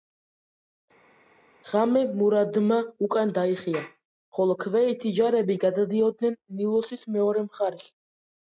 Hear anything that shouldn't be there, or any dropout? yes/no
no